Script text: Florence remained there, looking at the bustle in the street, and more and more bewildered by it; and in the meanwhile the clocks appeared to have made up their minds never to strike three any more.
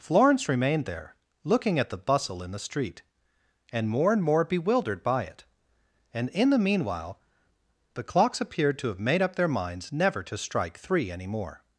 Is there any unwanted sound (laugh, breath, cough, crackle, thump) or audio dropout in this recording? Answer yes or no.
no